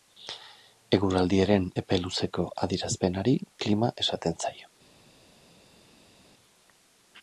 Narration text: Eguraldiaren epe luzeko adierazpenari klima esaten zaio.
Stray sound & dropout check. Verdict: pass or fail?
pass